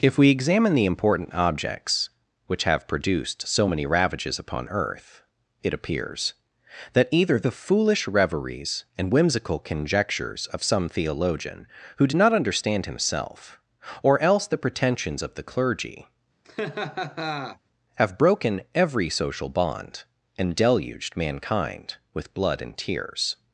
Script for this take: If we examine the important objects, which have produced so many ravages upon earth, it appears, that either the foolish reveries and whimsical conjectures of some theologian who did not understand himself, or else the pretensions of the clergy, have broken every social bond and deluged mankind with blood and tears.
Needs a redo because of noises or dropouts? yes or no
yes